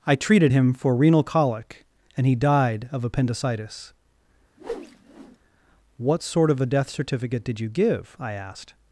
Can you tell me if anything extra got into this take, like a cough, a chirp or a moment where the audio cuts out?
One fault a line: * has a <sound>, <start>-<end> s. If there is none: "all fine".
* has a whoosh, 4.6-5.4 s